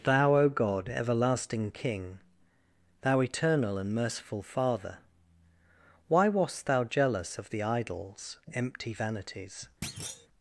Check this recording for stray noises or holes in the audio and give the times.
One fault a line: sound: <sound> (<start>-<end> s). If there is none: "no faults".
sound: thud (9.8-10.3 s)